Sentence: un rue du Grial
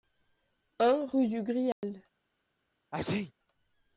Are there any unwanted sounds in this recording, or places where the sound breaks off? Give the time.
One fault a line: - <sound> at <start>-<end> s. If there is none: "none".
- dropout at 1.7-1.8 s
- sneeze at 2.9-3.3 s